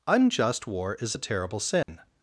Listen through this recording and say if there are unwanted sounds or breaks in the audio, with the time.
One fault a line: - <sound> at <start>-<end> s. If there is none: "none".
- dropout at 1.8-1.9 s